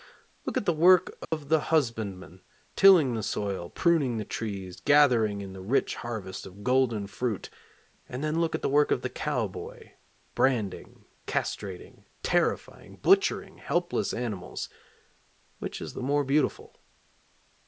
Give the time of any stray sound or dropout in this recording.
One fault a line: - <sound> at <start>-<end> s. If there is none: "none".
- dropout at 1.2-1.3 s